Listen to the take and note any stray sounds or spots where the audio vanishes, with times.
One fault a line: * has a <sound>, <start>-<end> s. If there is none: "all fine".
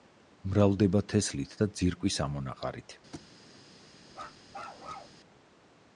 * has a thud, 3.1-3.3 s
* has a bark, 4.1-5.2 s